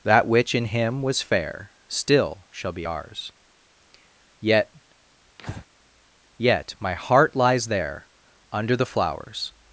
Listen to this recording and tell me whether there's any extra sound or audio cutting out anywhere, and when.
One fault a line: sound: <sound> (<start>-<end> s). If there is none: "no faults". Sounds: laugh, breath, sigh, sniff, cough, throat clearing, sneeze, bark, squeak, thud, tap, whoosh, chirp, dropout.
sound: breath (5.4-5.7 s)